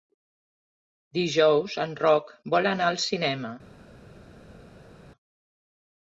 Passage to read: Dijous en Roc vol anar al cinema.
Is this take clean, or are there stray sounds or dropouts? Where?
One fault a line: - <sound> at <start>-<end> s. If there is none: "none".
none